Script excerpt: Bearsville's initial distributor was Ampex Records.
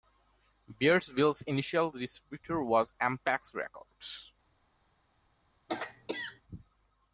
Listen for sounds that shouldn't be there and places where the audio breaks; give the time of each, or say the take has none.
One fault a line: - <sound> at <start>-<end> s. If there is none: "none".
- throat clearing at 5.7-6.4 s